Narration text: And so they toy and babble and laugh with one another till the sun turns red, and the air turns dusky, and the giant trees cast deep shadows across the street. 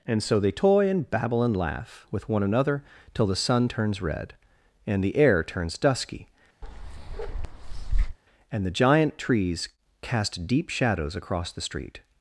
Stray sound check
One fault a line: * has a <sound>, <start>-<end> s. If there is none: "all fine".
* has a bark, 6.6-8.2 s